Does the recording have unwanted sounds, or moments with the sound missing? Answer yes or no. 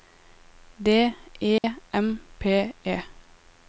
yes